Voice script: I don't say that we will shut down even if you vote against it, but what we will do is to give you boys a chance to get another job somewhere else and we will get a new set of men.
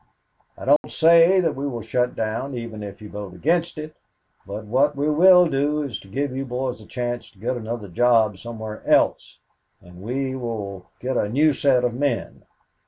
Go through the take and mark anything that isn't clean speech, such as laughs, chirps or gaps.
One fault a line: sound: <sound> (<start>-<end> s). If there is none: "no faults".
sound: dropout (0.8-0.8 s)